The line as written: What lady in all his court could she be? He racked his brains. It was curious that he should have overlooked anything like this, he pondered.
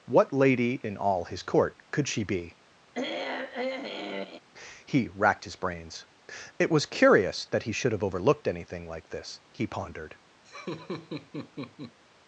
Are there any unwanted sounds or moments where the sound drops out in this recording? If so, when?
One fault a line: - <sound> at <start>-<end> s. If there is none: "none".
- throat clearing at 2.9-4.4 s
- laugh at 10.4-12.0 s